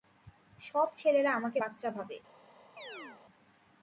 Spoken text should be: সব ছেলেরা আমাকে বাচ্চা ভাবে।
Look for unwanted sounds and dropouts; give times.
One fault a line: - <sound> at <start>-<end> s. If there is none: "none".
- chirp at 2.8-3.2 s